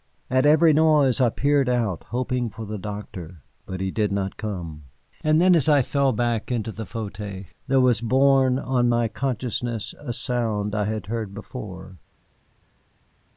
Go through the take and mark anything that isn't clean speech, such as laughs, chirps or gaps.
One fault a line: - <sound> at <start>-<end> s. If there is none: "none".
none